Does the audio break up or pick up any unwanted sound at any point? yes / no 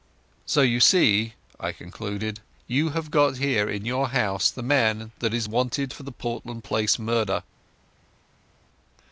no